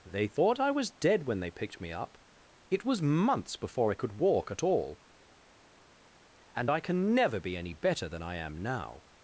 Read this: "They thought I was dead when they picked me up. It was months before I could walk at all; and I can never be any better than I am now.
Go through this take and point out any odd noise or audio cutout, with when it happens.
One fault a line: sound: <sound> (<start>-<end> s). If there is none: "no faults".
no faults